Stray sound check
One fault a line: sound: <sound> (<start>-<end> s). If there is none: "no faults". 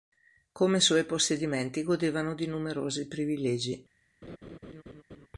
sound: laugh (4.2-5.3 s)